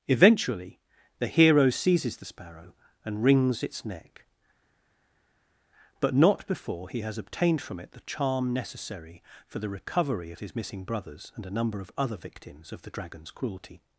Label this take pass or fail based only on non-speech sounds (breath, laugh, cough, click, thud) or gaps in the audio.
pass